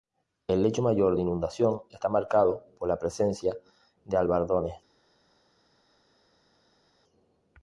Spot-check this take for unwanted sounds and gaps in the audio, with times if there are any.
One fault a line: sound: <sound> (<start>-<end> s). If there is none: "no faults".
no faults